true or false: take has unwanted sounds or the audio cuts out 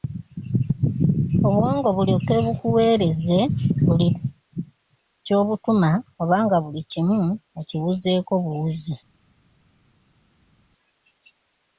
false